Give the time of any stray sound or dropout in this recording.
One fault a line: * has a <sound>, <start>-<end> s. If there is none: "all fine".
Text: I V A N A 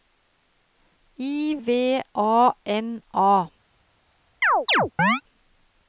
* has a chirp, 4.4-5.2 s